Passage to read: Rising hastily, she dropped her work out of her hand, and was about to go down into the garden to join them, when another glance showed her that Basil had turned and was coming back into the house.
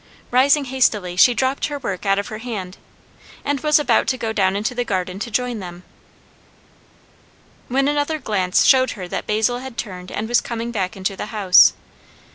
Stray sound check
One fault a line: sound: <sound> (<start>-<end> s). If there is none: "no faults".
no faults